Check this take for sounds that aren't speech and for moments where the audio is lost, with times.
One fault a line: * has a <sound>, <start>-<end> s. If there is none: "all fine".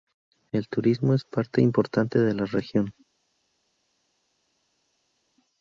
all fine